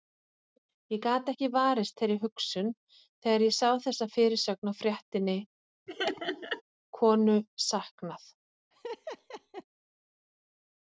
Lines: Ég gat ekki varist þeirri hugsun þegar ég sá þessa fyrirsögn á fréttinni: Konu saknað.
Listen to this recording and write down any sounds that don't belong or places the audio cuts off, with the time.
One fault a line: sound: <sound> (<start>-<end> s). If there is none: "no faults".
sound: laugh (5.9-6.6 s)
sound: laugh (8.7-9.6 s)